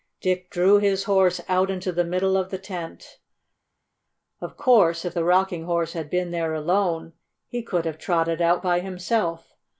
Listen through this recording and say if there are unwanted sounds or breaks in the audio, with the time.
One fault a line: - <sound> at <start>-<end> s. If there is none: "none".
none